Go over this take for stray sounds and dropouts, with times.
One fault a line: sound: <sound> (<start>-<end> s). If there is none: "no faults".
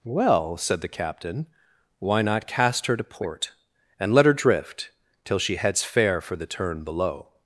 no faults